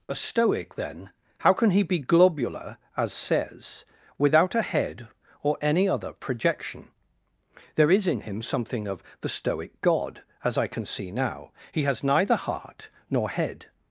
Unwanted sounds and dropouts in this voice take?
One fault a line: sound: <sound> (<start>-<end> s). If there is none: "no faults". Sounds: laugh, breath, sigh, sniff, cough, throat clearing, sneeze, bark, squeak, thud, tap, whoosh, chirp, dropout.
no faults